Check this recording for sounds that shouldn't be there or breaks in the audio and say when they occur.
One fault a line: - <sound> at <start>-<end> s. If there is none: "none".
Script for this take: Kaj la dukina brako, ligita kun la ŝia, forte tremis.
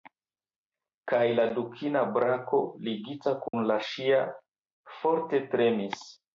- dropout at 3.5-3.5 s